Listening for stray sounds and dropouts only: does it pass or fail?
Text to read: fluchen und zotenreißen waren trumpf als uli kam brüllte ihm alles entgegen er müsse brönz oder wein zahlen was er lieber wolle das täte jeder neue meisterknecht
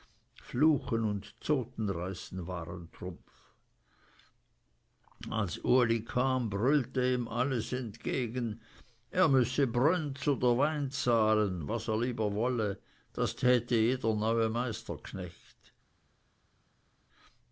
pass